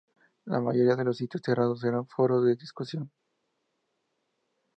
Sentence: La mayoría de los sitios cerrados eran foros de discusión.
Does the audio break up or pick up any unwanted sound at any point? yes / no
no